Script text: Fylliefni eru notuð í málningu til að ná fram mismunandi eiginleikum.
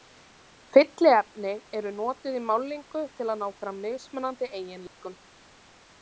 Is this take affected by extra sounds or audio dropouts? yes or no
yes